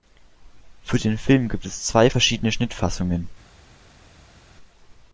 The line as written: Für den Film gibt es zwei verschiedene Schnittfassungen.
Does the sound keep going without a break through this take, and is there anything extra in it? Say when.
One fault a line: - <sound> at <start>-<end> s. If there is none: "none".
none